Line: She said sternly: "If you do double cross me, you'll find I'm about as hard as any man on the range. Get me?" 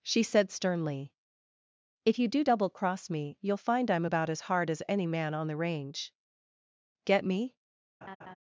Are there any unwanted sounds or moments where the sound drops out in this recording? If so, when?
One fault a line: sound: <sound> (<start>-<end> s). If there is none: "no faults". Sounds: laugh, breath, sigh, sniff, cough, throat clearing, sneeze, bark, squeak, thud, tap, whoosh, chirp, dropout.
sound: laugh (8.0-8.4 s)